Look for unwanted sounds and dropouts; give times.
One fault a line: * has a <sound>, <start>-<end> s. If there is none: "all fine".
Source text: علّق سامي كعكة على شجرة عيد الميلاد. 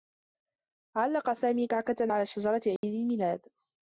* has a dropout, 2.8-2.8 s